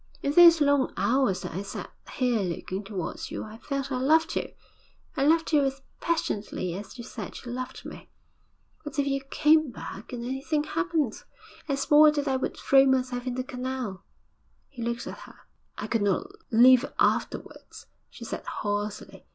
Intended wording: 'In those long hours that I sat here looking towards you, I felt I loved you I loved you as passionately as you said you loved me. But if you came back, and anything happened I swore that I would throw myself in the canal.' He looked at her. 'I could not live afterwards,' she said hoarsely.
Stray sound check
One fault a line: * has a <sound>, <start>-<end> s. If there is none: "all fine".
all fine